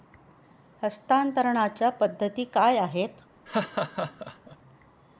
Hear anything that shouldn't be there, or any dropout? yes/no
yes